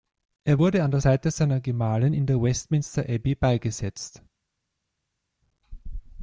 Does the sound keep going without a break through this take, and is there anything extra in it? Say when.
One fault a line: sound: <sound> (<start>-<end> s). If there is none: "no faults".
no faults